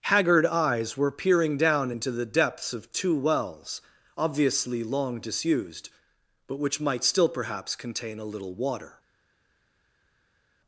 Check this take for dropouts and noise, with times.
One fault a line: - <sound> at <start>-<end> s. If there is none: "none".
none